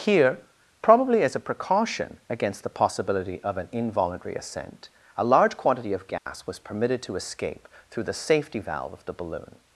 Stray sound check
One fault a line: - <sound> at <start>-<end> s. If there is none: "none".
- dropout at 6.2-6.3 s